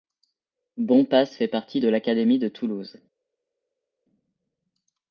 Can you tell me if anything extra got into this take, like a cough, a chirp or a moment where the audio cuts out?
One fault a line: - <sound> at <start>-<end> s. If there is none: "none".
none